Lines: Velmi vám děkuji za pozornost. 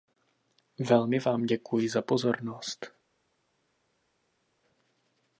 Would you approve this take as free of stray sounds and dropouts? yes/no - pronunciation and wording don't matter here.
yes